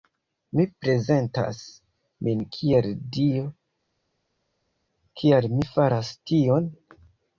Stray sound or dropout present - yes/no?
no